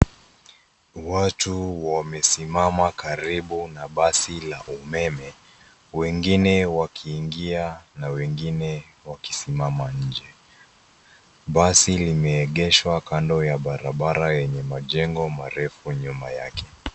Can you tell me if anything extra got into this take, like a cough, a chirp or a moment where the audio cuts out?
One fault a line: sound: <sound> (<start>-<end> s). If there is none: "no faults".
no faults